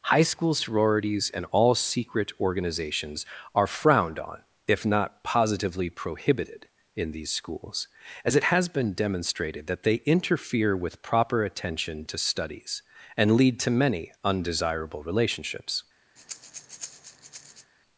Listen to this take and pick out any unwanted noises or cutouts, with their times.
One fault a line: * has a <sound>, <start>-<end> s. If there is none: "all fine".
* has a breath, 16.2-17.7 s